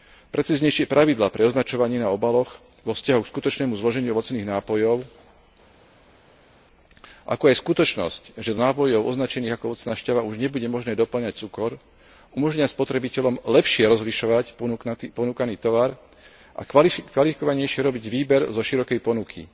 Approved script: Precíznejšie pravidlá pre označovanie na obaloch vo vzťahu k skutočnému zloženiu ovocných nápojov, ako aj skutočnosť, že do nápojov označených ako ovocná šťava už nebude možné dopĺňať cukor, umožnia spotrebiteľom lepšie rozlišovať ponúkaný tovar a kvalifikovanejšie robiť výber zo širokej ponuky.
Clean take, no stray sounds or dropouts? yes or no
yes